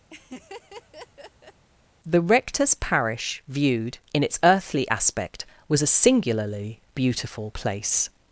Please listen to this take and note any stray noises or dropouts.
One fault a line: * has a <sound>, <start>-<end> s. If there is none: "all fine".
* has a laugh, 0.1-1.6 s